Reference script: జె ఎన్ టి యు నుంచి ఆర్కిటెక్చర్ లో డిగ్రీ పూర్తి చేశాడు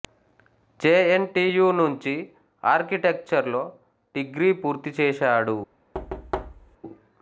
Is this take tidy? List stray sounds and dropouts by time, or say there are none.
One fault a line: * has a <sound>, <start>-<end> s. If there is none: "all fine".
* has a thud, 5.9-6.8 s